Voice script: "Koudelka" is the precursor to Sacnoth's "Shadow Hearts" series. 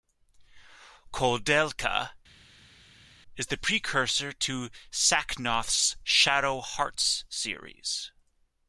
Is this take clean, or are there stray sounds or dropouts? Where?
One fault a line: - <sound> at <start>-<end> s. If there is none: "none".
none